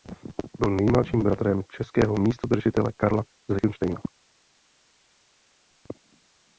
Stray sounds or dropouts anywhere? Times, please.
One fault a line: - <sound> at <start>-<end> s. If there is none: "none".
none